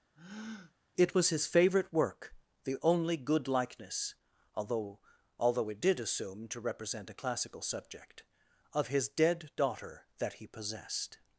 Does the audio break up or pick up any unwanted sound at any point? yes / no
yes